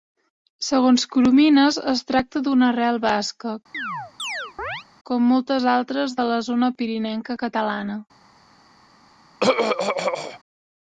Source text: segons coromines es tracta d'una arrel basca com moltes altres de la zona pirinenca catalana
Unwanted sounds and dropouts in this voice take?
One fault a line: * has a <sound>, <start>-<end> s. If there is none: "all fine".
* has a chirp, 3.7-4.8 s
* has a throat clearing, 9.4-10.4 s